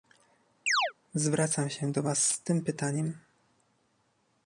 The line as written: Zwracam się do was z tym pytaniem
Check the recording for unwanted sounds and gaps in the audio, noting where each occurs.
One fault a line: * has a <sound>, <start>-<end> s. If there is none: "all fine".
* has a chirp, 0.7-0.9 s